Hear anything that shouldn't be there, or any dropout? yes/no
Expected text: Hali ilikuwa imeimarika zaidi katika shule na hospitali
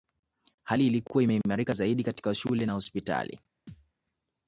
yes